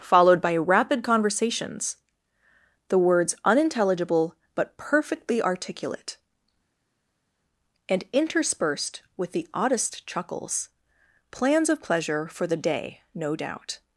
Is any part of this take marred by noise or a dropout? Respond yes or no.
no